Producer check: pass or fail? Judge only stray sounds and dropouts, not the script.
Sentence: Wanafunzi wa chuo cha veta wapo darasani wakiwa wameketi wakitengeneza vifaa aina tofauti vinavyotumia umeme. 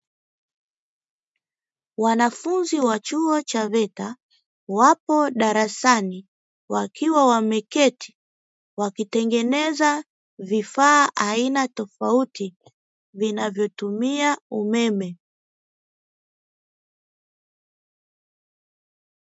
pass